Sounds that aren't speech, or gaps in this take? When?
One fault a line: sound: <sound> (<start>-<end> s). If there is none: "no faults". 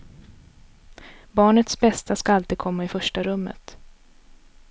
no faults